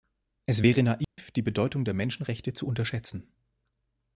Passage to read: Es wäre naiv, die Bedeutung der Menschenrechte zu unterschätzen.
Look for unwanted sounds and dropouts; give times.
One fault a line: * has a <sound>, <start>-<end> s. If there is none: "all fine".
* has a dropout, 1.0-1.2 s